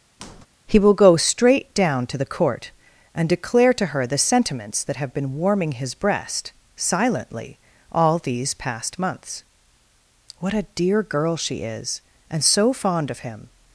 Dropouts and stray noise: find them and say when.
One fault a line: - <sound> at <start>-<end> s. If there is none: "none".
- squeak at 0.2-0.5 s